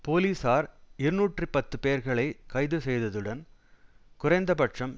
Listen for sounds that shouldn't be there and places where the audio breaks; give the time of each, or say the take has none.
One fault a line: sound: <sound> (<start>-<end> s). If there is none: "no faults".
no faults